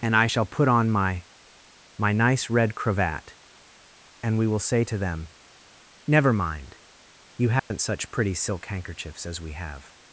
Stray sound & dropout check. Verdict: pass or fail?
fail